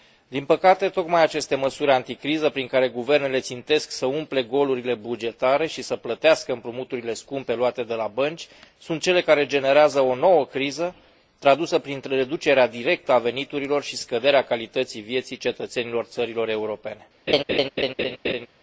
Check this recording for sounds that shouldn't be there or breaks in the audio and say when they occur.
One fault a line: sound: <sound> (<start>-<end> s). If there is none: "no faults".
sound: laugh (17.3-18.5 s)